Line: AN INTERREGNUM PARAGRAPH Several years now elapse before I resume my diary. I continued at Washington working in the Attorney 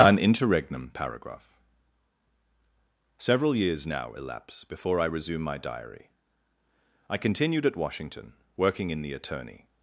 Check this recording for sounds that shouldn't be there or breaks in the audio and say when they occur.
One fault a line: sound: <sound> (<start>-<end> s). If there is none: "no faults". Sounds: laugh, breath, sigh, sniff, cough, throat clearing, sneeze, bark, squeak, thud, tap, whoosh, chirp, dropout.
no faults